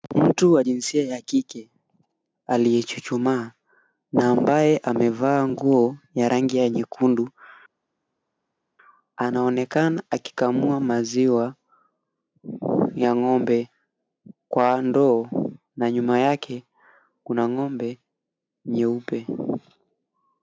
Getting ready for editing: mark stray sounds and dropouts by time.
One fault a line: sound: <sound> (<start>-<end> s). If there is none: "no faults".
no faults